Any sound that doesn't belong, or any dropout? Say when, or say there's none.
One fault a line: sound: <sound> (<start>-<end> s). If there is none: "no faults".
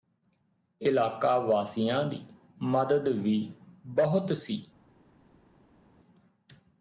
no faults